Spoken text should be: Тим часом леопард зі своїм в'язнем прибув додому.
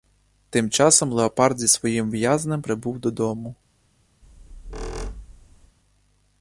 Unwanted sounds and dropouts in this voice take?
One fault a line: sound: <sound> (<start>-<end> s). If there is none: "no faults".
sound: squeak (4.2-5.8 s)